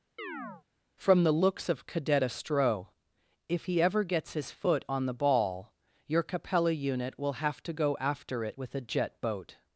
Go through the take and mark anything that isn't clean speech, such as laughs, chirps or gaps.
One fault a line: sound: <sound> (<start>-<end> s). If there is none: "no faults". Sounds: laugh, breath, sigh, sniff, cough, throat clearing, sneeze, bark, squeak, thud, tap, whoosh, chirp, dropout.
sound: chirp (0.2-0.6 s)